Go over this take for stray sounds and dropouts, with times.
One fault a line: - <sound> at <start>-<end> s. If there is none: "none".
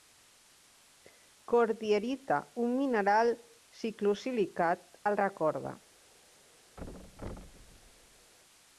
- thud at 6.8-8.3 s